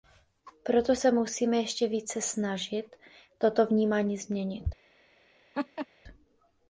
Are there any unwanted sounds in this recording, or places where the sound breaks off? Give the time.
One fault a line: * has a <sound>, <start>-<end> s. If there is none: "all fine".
* has a laugh, 5.5-5.9 s